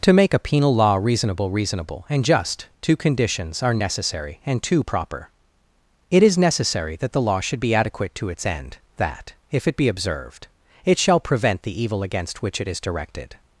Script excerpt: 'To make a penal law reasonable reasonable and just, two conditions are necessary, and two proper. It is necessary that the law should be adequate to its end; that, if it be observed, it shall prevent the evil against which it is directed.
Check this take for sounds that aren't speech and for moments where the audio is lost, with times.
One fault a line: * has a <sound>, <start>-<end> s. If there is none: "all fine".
all fine